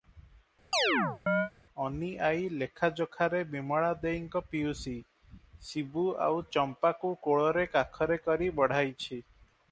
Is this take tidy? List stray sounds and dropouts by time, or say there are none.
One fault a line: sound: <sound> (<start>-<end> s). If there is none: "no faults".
sound: chirp (0.7-1.5 s)